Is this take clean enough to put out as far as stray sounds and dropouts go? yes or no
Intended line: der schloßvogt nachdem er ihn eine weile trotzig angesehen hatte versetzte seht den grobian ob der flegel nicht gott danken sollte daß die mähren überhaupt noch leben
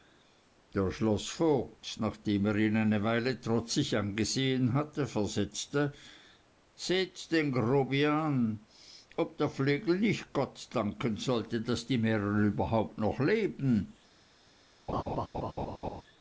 no